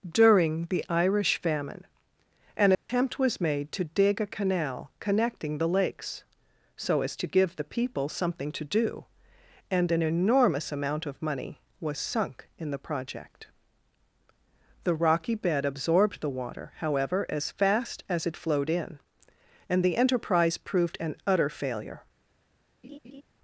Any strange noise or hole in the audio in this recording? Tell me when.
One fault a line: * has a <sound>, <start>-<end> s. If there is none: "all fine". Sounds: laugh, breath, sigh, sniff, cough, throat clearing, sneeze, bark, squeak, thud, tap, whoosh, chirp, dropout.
* has a dropout, 2.7-2.9 s
* has a laugh, 22.8-23.2 s